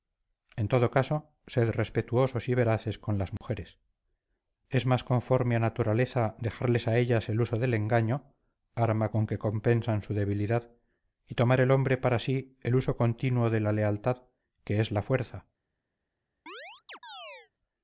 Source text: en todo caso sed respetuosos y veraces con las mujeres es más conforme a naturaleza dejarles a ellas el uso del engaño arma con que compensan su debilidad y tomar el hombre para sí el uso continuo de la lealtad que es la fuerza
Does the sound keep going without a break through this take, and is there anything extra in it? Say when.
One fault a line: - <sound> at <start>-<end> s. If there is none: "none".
- dropout at 3.4-3.4 s
- chirp at 16.5-17.5 s